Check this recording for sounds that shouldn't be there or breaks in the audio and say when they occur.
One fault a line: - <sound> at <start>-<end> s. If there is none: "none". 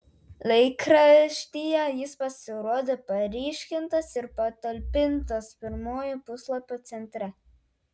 none